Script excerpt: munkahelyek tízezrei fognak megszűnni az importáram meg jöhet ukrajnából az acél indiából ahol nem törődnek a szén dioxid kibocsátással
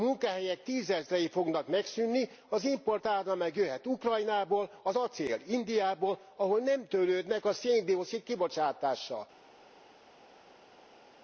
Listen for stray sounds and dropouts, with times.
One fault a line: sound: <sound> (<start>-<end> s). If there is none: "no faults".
no faults